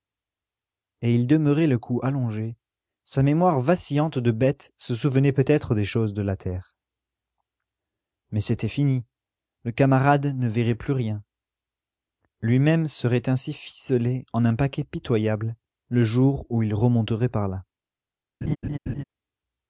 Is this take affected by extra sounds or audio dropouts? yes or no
yes